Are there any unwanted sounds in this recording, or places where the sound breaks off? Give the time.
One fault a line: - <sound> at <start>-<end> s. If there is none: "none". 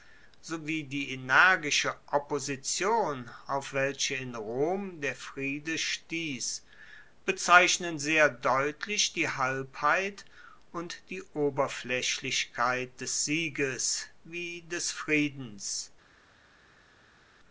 none